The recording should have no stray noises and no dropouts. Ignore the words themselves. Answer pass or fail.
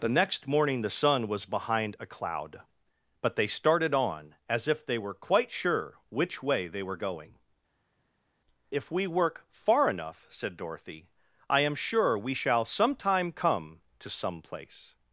pass